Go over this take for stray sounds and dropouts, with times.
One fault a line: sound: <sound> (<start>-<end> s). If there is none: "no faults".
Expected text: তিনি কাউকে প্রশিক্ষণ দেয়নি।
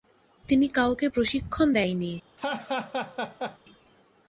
sound: laugh (2.4-3.6 s)